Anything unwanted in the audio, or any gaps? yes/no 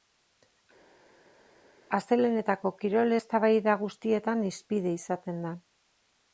no